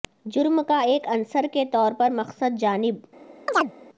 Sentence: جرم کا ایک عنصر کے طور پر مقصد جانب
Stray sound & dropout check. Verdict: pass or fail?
fail